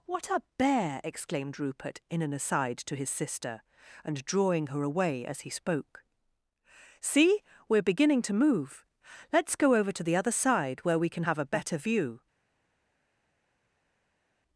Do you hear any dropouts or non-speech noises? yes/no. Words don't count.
no